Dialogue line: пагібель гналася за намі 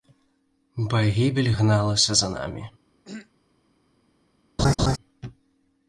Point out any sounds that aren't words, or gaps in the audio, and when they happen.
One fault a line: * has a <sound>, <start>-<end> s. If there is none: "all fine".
* has a throat clearing, 3.0-3.3 s
* has a laugh, 4.6-5.0 s